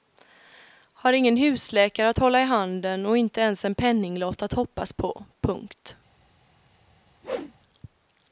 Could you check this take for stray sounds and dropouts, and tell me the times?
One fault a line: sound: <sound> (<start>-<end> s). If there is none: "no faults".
sound: whoosh (7.2-7.5 s)